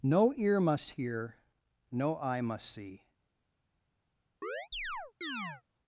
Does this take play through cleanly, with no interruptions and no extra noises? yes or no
no